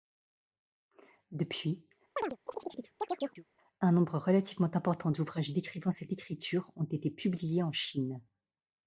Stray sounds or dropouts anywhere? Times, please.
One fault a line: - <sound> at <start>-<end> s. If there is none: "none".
- chirp at 2.2-3.5 s